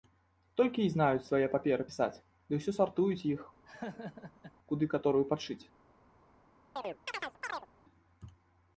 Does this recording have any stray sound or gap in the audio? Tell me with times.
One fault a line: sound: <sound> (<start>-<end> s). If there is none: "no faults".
sound: laugh (3.7-4.5 s)
sound: chirp (6.8-7.7 s)